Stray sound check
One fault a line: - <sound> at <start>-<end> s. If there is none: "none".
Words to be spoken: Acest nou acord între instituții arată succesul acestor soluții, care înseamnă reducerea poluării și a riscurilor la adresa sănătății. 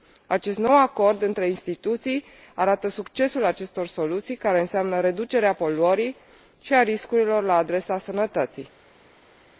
none